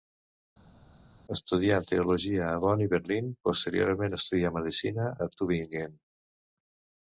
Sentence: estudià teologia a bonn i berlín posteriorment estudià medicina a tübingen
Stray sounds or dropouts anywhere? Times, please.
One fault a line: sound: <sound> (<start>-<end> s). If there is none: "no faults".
no faults